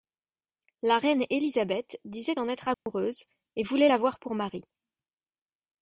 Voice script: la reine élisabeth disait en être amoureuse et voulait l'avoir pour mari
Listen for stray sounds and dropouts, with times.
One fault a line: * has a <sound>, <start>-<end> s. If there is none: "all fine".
* has a dropout, 2.7-2.9 s